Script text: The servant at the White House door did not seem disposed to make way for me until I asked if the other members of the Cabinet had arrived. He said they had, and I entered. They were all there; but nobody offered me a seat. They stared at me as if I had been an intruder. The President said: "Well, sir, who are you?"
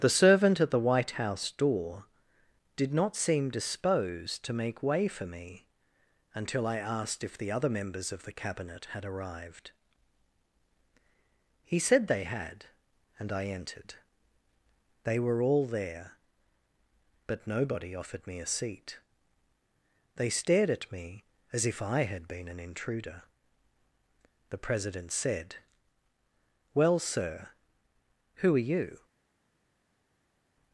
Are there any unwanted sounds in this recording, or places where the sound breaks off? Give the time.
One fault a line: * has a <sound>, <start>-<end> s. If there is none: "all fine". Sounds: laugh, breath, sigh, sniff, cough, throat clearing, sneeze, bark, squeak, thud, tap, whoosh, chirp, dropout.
all fine